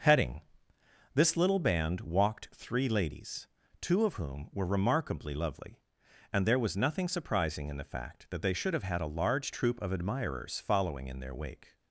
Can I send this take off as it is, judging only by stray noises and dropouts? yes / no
yes